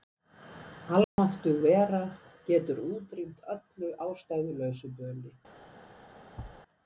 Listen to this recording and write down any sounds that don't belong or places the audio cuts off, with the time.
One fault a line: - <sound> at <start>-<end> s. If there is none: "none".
- dropout at 1.0-1.2 s
- thud at 6.4-6.6 s